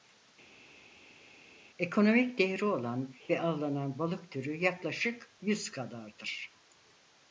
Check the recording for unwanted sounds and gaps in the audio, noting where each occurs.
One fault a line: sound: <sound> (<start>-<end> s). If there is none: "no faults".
no faults